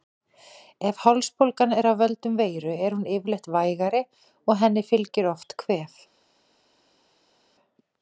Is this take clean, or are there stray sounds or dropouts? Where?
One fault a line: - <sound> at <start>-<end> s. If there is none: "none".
none